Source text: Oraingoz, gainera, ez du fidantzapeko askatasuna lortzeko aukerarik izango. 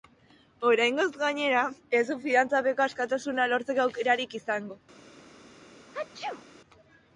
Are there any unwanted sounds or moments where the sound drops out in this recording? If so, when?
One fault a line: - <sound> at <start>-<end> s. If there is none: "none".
- sneeze at 5.9-6.5 s